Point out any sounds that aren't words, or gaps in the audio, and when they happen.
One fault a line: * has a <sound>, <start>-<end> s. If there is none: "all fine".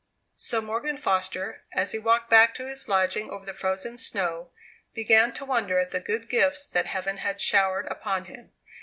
all fine